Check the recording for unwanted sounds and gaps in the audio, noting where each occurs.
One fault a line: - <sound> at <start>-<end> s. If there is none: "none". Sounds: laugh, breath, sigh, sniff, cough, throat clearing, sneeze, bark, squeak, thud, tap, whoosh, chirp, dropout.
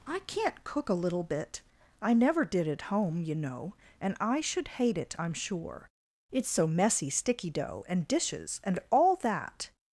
none